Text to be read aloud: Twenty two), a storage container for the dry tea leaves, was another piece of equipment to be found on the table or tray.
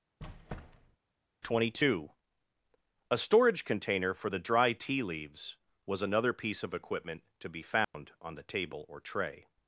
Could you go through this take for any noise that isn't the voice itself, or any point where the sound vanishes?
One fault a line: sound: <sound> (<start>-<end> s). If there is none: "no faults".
sound: squeak (0.2-1.0 s)
sound: dropout (7.8-7.9 s)